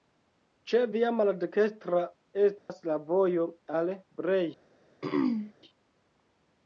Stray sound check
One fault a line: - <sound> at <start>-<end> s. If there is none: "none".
- dropout at 2.6-2.7 s
- throat clearing at 5.0-5.5 s